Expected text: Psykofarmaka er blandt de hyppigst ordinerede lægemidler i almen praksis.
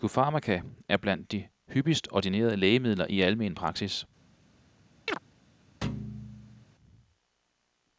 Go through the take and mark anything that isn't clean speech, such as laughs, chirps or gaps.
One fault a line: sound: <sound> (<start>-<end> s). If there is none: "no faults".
sound: chirp (5.1-5.2 s)
sound: thud (5.8-6.7 s)